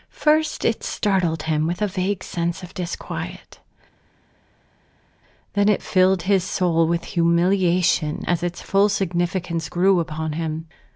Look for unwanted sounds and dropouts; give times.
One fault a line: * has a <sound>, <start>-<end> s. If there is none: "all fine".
all fine